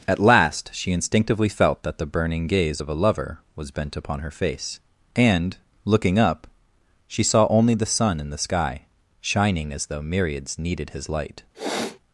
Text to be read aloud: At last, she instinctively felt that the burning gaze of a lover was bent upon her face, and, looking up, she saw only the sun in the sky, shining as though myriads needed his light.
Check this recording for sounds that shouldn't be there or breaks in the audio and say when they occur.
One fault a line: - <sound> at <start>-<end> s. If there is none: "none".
- sniff at 11.5-12.0 s